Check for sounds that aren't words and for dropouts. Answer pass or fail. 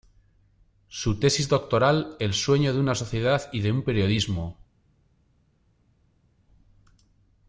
pass